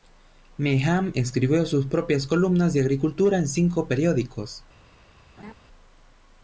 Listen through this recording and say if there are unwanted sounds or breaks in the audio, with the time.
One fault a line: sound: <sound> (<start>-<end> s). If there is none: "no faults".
sound: laugh (5.4-5.5 s)